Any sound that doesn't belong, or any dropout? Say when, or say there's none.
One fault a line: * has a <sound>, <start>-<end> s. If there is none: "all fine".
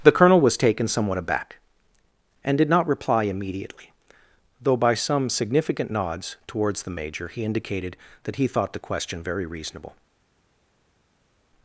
all fine